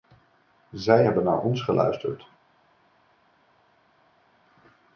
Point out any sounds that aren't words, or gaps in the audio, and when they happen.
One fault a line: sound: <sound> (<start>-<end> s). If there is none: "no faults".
no faults